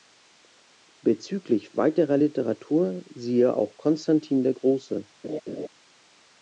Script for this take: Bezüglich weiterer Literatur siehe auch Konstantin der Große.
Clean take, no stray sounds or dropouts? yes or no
no